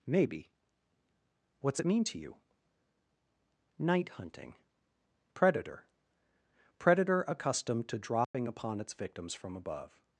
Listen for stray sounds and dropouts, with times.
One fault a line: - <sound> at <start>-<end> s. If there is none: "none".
- dropout at 8.2-8.3 s